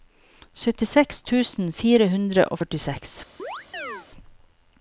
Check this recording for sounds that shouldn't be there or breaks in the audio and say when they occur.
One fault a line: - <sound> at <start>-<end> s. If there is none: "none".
- chirp at 3.4-4.1 s